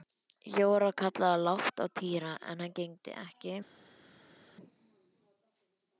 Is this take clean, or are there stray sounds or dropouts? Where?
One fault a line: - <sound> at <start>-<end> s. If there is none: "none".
none